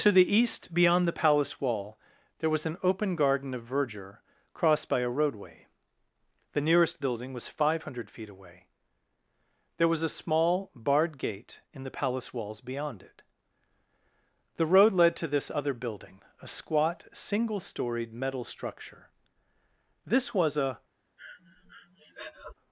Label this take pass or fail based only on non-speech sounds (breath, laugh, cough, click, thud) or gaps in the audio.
fail